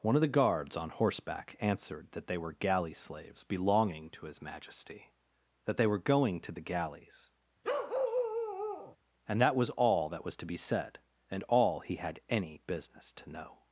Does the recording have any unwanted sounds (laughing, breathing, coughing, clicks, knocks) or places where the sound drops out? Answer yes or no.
yes